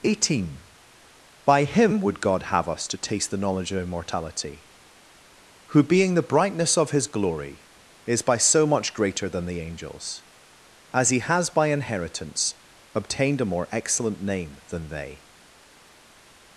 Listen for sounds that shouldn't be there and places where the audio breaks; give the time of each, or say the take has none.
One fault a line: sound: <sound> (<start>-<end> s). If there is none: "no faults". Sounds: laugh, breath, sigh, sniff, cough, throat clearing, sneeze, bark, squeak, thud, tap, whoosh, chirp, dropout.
no faults